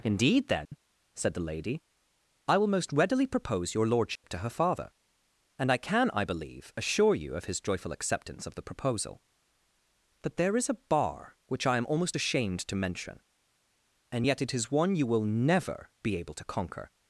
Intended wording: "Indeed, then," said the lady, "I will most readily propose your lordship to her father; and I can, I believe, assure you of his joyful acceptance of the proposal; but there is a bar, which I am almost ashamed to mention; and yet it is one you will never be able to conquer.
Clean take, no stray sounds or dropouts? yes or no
no